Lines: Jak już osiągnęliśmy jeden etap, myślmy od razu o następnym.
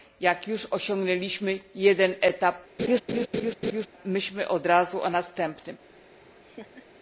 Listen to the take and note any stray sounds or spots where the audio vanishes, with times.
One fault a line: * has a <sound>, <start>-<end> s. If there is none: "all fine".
* has a laugh, 2.8-3.9 s
* has a laugh, 6.2-6.9 s